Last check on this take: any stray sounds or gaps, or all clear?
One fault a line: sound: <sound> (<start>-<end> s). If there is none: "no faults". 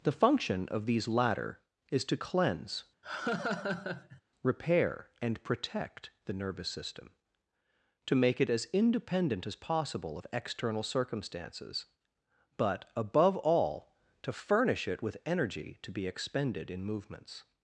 sound: laugh (3.0-4.2 s)